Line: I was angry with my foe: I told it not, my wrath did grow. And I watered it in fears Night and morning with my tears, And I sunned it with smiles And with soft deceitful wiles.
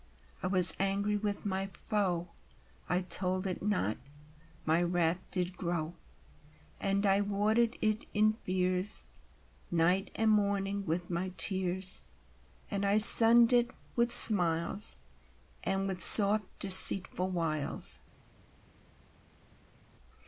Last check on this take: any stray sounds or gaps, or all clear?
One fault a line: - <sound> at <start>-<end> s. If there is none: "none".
none